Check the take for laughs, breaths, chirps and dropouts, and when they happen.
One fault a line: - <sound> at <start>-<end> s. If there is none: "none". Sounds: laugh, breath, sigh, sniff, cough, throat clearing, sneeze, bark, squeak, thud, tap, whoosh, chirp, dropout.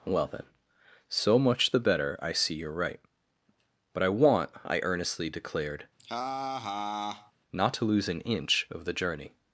- laugh at 6.0-7.3 s